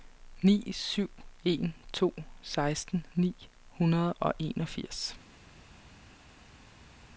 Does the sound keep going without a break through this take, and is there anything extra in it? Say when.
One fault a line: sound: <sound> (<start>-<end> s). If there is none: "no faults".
no faults